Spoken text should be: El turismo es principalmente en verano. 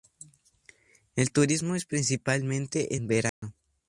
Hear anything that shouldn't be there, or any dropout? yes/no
yes